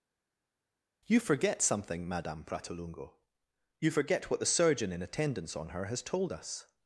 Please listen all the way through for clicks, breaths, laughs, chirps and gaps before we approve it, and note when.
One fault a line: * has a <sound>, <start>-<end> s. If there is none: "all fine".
all fine